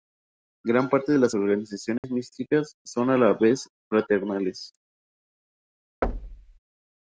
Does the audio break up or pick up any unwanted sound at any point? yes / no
yes